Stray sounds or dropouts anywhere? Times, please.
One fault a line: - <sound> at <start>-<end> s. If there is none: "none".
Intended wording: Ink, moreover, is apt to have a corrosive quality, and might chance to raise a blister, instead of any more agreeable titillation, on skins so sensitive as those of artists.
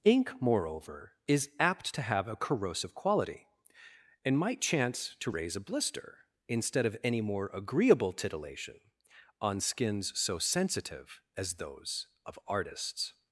none